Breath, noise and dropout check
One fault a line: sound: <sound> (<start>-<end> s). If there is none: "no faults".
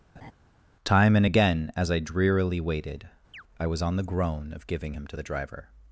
sound: laugh (0.2-0.3 s)
sound: chirp (3.3-3.4 s)